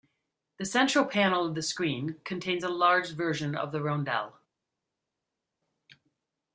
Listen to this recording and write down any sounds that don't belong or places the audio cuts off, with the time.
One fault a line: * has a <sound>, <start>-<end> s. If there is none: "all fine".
all fine